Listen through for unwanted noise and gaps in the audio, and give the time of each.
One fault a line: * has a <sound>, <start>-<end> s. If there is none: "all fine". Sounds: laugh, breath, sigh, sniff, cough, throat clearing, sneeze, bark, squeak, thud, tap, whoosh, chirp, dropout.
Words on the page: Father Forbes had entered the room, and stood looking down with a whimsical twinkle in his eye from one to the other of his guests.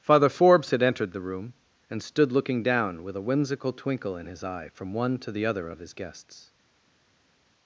all fine